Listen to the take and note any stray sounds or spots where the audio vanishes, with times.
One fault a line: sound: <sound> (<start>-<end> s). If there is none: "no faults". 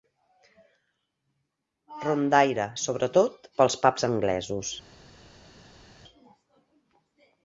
no faults